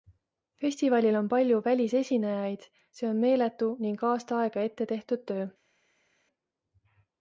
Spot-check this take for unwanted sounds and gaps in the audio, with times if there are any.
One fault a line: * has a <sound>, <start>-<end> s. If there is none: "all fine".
all fine